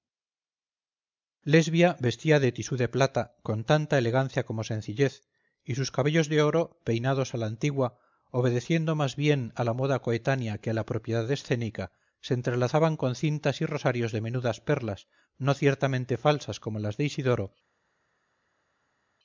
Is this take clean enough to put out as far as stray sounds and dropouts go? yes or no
yes